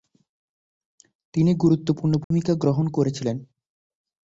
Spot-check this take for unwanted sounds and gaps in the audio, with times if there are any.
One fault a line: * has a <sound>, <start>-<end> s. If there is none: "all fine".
* has a dropout, 2.2-2.3 s